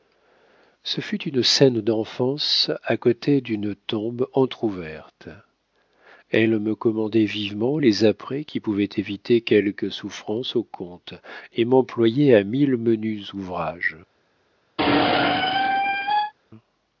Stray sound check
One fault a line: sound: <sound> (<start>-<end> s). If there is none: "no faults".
sound: squeak (14.8-16.3 s)